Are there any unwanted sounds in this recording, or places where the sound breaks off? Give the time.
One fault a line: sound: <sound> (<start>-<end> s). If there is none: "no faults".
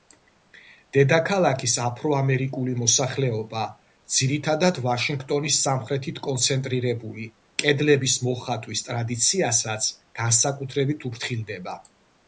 no faults